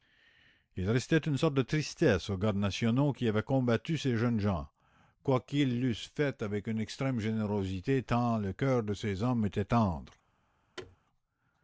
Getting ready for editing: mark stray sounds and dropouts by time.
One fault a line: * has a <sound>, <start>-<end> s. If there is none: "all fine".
* has a thud, 10.8-11.0 s